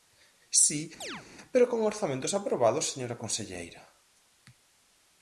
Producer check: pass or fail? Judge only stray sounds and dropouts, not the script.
fail